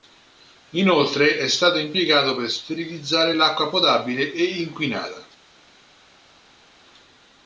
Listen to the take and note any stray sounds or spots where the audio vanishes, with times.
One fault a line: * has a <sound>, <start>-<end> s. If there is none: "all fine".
all fine